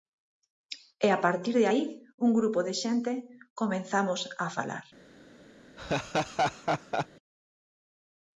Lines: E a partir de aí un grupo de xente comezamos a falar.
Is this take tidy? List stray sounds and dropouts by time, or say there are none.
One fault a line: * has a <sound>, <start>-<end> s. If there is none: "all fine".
* has a laugh, 5.8-7.1 s